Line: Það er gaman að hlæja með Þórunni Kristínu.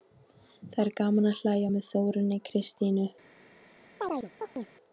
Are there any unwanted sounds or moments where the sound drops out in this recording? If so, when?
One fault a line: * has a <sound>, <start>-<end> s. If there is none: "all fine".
* has a chirp, 4.0-4.7 s